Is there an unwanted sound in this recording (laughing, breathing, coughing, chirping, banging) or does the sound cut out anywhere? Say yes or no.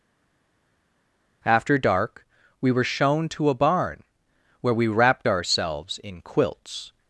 no